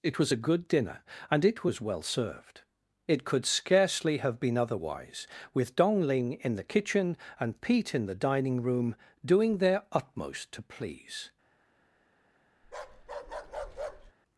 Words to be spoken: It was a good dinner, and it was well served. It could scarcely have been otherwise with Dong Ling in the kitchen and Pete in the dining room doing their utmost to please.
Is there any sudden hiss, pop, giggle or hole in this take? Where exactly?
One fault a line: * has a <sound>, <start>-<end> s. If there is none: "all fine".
* has a bark, 12.6-14.1 s